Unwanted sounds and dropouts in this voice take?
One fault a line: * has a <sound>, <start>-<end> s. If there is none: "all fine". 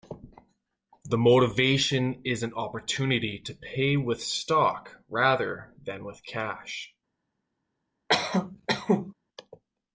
* has a cough, 8.1-9.1 s